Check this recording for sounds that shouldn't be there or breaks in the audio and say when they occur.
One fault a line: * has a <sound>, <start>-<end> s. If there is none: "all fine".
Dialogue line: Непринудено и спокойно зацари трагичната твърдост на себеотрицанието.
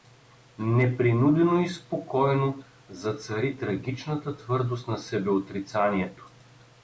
all fine